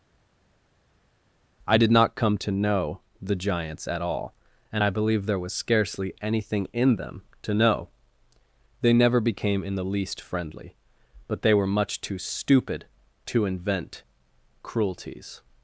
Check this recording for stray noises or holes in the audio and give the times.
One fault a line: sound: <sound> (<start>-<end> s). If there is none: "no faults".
no faults